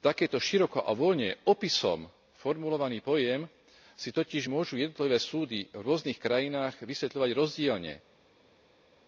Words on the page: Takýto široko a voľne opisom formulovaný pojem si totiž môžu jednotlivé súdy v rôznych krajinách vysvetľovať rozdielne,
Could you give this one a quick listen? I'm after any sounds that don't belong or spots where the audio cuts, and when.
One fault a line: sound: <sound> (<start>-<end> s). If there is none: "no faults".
no faults